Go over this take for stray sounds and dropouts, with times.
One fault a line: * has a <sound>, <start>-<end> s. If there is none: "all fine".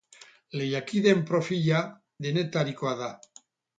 all fine